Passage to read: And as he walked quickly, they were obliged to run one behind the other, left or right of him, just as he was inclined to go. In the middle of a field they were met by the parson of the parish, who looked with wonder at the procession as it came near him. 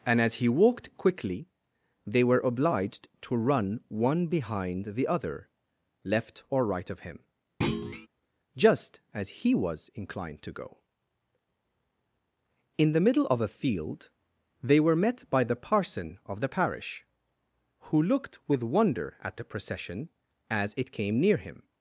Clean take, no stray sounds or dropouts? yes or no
no